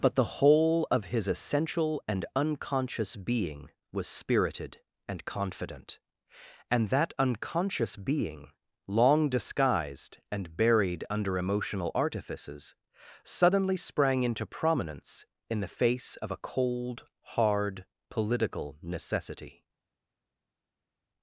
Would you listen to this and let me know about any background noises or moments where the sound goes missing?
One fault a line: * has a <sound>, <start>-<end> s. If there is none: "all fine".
all fine